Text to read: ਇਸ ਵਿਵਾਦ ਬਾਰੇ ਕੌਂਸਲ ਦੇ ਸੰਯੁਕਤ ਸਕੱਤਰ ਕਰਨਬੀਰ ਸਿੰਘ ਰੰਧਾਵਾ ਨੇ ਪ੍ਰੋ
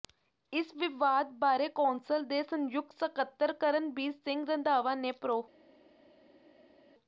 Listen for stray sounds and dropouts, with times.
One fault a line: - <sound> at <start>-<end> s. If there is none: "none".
none